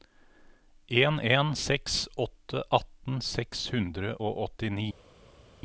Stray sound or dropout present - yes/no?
no